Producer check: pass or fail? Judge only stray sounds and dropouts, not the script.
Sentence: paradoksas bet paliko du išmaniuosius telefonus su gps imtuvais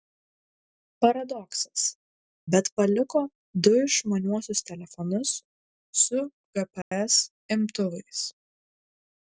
fail